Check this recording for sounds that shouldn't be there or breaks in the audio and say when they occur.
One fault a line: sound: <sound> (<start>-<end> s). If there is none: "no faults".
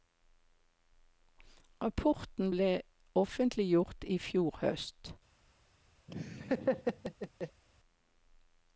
sound: laugh (6.1-7.6 s)